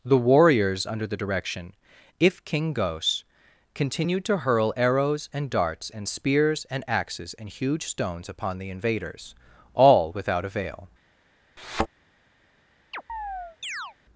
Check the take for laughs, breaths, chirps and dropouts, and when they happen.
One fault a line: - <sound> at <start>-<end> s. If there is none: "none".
- thud at 11.6-11.9 s
- chirp at 12.9-14.0 s